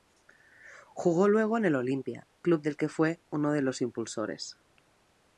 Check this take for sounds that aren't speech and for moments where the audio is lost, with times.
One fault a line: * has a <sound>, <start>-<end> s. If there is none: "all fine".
all fine